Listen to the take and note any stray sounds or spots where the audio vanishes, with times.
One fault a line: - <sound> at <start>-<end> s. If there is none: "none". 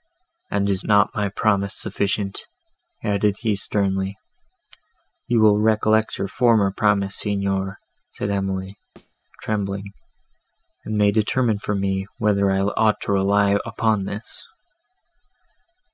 - thud at 9.0-9.2 s